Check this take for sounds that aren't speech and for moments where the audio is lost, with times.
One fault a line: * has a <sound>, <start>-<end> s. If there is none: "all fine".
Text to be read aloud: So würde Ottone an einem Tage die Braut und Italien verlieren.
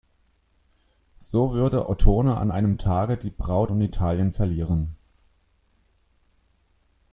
all fine